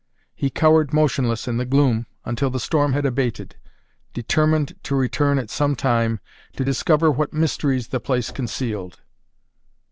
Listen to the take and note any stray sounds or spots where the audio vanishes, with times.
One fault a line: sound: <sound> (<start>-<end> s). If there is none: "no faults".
no faults